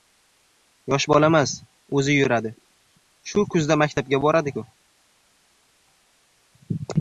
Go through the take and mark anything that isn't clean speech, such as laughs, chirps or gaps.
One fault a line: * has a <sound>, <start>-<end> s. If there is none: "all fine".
all fine